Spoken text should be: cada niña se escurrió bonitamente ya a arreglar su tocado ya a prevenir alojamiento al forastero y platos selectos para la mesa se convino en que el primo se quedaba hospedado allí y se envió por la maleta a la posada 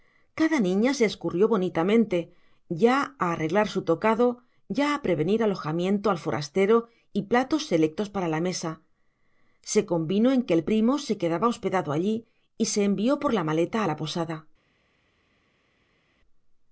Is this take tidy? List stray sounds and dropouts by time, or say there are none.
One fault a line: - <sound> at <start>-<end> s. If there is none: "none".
none